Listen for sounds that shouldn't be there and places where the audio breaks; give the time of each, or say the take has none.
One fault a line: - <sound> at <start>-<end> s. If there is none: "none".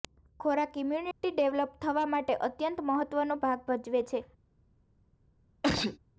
- dropout at 1.1-1.2 s
- sneeze at 5.6-6.0 s